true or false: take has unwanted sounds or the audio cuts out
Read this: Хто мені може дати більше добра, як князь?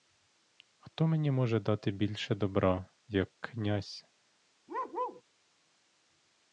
true